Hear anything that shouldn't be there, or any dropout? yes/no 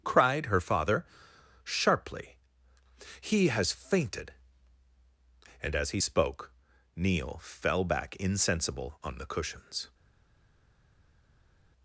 no